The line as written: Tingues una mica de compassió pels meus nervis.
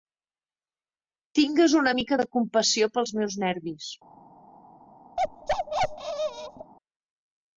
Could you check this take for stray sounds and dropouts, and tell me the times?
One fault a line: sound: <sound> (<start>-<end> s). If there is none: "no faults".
sound: bark (5.2-6.7 s)